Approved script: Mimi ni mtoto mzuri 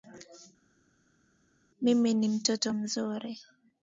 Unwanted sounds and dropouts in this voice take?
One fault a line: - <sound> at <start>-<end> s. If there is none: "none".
none